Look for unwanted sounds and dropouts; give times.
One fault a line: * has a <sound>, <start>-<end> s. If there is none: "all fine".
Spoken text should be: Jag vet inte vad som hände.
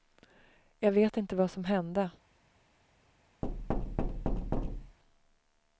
* has a thud, 3.4-5.0 s